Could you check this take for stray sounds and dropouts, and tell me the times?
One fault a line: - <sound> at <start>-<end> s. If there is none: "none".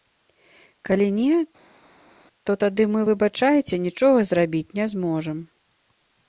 none